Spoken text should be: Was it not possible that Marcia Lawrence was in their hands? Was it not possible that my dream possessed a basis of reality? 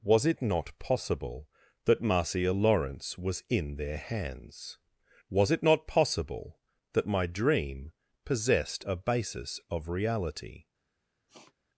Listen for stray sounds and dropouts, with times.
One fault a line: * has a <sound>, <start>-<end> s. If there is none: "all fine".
* has a sniff, 11.3-11.5 s